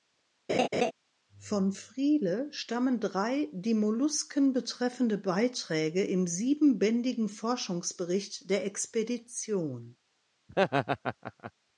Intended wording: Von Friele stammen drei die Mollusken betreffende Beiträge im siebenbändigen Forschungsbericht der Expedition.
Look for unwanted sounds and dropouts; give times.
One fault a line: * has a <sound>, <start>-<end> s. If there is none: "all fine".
* has a laugh, 0.5-0.9 s
* has a laugh, 10.5-11.5 s